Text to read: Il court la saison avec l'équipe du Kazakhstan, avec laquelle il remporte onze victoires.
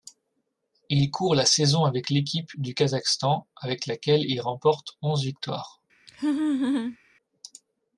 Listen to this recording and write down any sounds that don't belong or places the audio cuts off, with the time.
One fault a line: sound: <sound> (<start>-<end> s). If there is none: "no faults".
sound: laugh (6.1-7.0 s)